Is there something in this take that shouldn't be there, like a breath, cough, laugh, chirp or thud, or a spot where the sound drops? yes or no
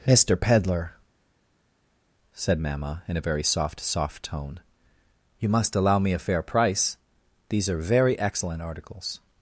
no